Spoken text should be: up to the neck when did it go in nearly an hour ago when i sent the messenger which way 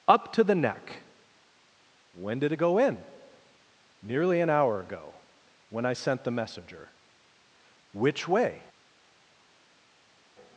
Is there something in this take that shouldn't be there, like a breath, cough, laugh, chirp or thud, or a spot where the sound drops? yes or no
no